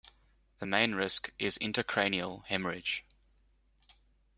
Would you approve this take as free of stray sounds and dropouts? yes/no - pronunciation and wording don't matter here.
yes